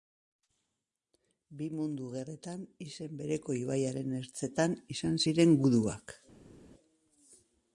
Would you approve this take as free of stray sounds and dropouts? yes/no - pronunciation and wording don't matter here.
yes